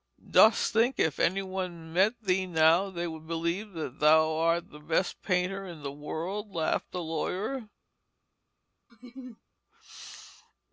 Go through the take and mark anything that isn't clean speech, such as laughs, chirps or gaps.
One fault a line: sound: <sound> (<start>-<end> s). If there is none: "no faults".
sound: laugh (8.9-9.4 s)